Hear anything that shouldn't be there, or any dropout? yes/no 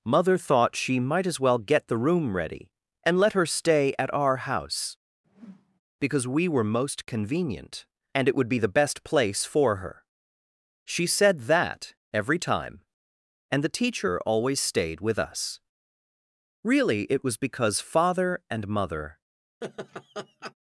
yes